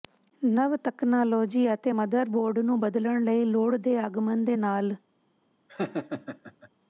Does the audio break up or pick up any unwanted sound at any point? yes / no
yes